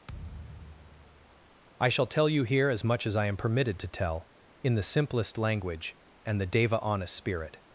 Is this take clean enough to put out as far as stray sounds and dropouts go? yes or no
no